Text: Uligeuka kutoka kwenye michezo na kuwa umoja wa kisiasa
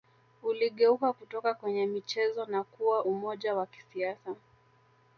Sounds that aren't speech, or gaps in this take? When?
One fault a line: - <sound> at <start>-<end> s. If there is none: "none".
none